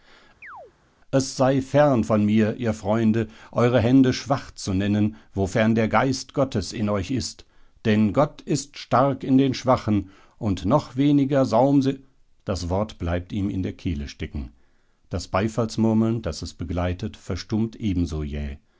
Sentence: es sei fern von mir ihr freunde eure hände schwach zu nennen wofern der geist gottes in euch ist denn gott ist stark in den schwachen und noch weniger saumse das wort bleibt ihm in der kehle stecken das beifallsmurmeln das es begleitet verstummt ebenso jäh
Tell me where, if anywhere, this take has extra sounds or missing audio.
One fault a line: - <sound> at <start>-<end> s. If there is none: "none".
- chirp at 0.4-0.7 s